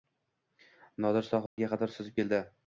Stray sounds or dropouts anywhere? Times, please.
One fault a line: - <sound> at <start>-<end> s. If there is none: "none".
- dropout at 1.5-1.6 s